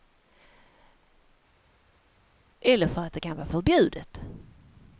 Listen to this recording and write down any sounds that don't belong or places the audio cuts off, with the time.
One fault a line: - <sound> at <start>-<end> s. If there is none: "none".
none